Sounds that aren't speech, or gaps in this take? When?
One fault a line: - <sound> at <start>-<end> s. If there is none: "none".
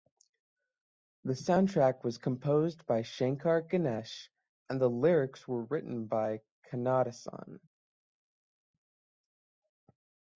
none